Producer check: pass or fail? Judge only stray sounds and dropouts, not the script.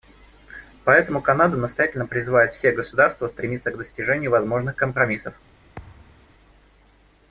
fail